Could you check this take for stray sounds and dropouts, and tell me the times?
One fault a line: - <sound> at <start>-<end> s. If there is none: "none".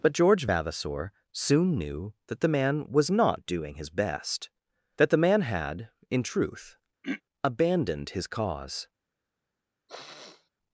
- throat clearing at 7.0-7.2 s
- sniff at 9.9-10.5 s